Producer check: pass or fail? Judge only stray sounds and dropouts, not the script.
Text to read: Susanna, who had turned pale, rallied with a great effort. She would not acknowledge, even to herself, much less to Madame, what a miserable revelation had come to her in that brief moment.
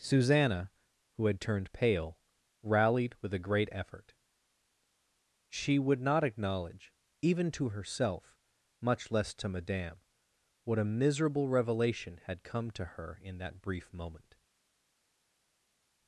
pass